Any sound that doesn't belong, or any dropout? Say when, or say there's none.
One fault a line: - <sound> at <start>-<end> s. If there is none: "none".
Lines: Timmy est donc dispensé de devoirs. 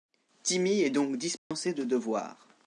- dropout at 1.4-1.5 s